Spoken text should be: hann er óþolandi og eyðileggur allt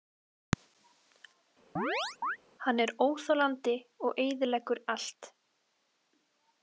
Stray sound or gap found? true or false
true